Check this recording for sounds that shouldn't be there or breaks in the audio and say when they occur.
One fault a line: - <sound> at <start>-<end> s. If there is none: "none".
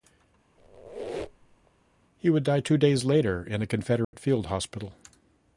- squeak at 0.6-1.7 s
- dropout at 4.0-4.1 s